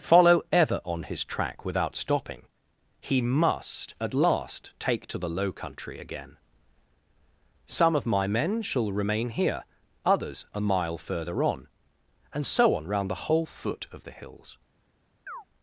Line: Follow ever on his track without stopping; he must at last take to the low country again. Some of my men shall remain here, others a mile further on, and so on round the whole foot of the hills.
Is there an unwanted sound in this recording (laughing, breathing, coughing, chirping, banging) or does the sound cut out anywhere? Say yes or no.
yes